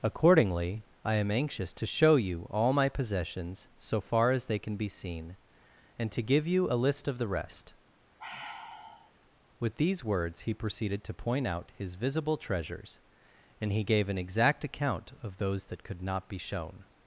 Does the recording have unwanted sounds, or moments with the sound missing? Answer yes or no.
yes